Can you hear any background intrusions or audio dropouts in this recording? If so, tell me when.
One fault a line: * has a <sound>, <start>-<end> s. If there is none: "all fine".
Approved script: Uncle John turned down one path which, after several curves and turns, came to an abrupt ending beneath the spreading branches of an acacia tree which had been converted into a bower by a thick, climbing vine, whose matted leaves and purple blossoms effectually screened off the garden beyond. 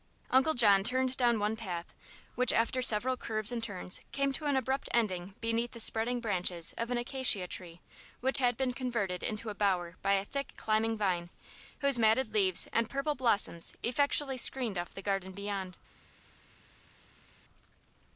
all fine